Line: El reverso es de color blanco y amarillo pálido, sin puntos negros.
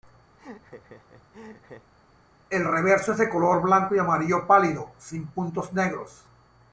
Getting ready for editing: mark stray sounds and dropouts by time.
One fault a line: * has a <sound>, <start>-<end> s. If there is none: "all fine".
* has a laugh, 0.4-1.9 s